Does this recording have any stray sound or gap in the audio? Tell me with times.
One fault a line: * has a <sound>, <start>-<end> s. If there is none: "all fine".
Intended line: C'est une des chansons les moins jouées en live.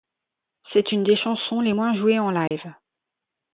* has a dropout, 2.5-2.5 s